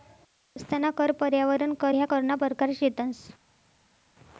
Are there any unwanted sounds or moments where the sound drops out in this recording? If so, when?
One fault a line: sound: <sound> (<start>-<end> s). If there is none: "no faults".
no faults